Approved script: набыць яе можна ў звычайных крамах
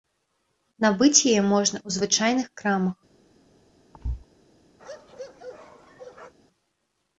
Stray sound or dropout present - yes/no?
yes